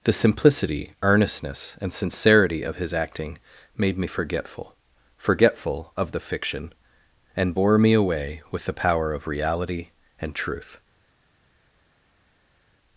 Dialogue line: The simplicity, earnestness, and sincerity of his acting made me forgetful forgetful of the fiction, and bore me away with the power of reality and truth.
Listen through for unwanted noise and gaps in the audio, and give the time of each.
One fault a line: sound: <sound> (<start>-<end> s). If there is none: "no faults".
no faults